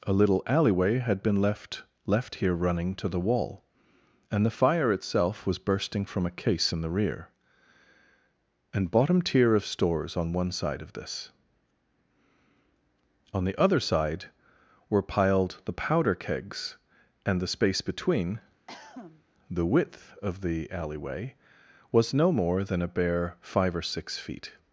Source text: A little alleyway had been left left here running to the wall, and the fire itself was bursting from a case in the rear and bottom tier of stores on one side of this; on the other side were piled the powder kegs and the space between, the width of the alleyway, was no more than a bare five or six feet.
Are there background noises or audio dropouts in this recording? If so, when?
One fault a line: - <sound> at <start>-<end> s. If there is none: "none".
- cough at 18.7-19.2 s